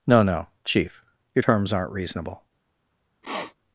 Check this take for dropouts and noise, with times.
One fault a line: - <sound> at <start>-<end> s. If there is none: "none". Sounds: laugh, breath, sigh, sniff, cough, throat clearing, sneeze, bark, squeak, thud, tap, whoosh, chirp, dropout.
- sniff at 3.2-3.5 s